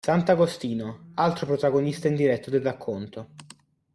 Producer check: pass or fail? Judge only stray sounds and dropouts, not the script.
pass